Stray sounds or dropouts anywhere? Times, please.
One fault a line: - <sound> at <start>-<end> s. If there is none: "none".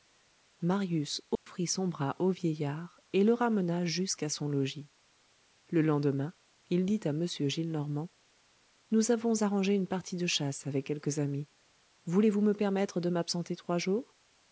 - dropout at 1.4-1.5 s